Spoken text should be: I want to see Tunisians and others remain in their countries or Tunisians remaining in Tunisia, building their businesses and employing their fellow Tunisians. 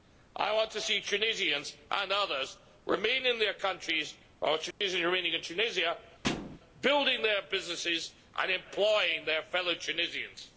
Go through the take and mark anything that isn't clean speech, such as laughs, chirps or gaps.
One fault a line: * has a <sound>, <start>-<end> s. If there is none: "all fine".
* has a dropout, 4.7-4.8 s
* has a thud, 6.2-6.6 s